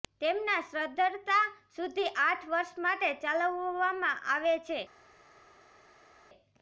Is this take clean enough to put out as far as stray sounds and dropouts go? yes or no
yes